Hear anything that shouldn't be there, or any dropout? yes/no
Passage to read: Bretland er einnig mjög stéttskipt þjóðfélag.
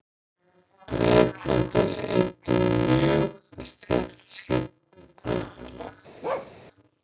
yes